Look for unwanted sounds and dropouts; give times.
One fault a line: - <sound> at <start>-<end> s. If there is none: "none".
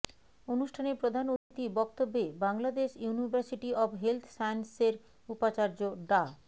- dropout at 1.4-1.5 s